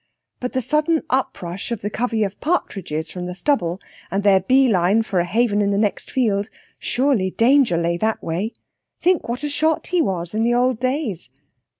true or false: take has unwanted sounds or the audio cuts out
false